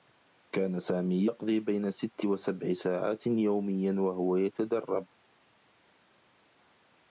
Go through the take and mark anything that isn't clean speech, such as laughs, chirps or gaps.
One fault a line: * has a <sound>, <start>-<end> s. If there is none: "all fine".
all fine